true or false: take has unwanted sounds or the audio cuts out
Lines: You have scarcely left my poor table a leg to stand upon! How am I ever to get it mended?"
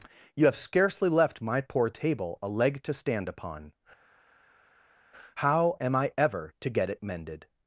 false